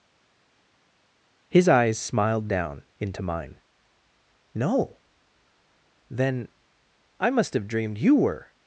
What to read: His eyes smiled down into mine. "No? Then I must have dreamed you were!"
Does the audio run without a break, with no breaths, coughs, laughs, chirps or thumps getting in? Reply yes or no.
yes